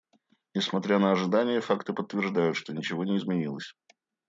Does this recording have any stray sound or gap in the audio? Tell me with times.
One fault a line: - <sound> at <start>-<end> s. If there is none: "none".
none